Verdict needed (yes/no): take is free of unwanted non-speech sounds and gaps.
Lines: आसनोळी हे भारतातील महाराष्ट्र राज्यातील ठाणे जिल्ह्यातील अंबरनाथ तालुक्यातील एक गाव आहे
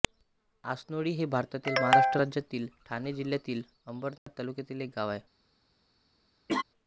no